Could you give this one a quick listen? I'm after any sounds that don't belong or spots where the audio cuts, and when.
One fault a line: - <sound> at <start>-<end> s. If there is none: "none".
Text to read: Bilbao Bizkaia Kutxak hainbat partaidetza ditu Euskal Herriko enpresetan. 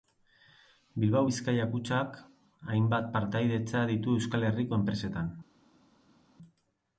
none